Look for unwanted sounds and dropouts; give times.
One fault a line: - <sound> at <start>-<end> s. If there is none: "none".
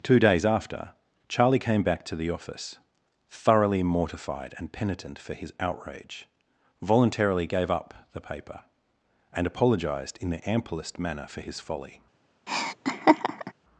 - laugh at 12.5-13.5 s